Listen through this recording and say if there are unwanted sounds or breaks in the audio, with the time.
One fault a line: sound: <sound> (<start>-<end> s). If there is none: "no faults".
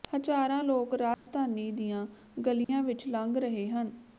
sound: dropout (1.1-1.3 s)
sound: dropout (2.6-2.7 s)